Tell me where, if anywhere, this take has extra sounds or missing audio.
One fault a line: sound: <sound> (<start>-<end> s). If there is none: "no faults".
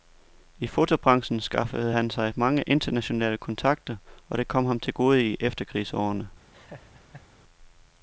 sound: laugh (6.5-7.3 s)